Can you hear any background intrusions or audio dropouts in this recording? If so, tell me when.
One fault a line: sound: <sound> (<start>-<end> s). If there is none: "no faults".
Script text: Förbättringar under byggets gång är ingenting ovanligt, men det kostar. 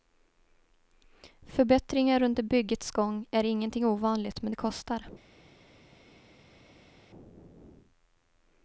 no faults